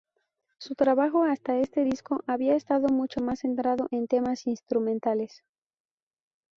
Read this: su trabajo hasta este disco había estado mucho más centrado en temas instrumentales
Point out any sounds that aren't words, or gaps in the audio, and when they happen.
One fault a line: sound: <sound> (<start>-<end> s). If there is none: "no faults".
no faults